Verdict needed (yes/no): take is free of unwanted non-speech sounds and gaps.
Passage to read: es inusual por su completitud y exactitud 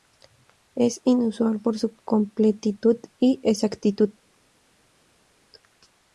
yes